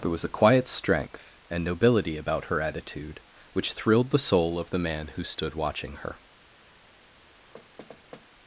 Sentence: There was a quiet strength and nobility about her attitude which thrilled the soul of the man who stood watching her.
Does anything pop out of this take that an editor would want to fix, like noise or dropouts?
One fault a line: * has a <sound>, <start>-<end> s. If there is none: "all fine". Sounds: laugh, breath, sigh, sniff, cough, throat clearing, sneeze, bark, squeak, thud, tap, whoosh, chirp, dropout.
* has a thud, 7.5-8.3 s